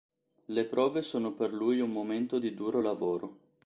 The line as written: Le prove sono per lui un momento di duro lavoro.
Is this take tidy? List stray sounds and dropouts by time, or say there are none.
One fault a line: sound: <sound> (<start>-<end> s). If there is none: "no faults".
no faults